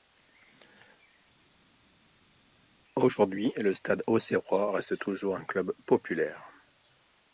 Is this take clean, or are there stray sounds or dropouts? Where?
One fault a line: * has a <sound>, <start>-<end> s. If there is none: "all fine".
all fine